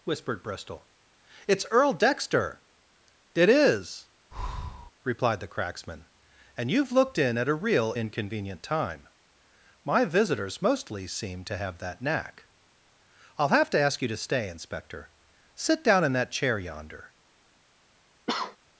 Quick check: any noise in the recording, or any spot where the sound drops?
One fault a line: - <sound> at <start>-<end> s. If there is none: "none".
- breath at 4.3-4.9 s
- cough at 18.3-18.6 s